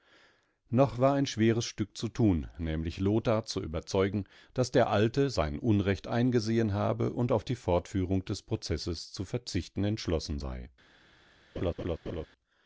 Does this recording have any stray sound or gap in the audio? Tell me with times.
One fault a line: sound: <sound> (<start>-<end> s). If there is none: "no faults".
sound: laugh (11.6-12.3 s)